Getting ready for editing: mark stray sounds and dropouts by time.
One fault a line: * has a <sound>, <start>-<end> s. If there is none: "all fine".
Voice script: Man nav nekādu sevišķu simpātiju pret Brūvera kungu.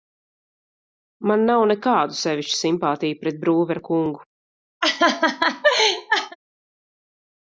* has a laugh, 4.8-6.4 s